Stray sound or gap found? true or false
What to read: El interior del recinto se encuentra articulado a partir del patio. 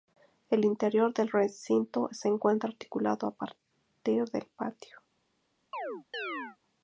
true